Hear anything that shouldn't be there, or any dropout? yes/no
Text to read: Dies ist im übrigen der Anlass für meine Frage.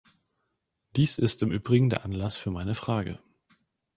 no